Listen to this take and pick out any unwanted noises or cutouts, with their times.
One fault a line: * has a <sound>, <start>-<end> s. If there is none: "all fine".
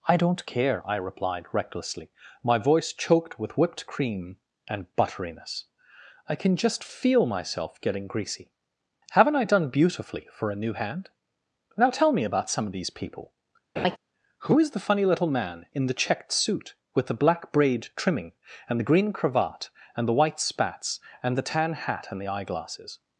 * has a laugh, 13.8-14.0 s